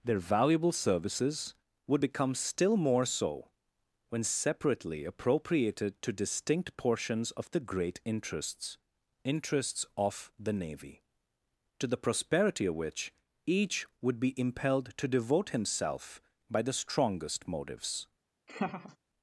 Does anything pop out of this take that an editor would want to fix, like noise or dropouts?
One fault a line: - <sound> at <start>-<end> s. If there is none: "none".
- laugh at 18.5-19.0 s